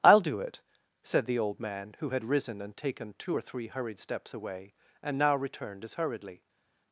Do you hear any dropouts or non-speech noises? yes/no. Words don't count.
no